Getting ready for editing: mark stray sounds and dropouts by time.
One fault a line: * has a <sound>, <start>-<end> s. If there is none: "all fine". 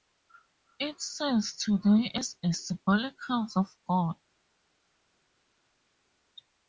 all fine